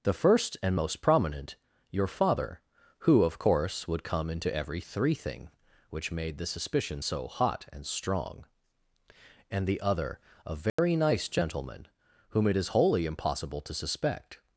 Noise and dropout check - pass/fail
fail